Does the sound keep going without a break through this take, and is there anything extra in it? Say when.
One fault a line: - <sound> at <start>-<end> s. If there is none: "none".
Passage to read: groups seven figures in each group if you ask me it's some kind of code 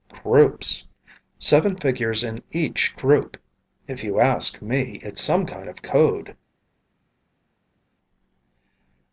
none